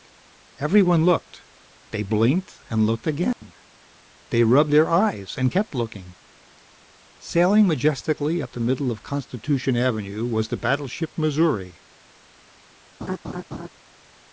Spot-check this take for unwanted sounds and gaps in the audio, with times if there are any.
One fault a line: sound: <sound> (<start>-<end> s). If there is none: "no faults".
sound: dropout (3.3-3.4 s)
sound: laugh (13.0-13.7 s)